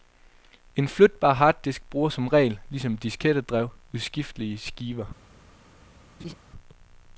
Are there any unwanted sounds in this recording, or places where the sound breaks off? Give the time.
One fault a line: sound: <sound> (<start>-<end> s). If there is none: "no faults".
sound: laugh (6.2-6.3 s)